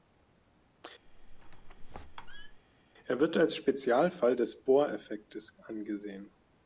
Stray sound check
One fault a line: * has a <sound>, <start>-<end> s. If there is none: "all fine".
* has a squeak, 1.1-2.6 s